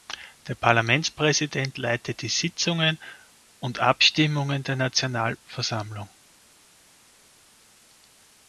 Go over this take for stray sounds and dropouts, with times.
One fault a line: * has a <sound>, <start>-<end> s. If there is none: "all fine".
all fine